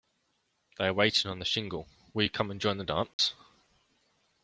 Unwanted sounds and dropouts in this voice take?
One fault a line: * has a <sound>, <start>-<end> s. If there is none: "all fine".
* has a dropout, 3.1-3.2 s